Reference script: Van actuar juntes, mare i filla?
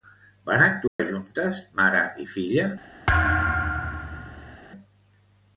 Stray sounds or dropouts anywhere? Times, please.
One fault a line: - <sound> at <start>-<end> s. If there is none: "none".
- dropout at 0.9-1.0 s
- thud at 3.1-4.6 s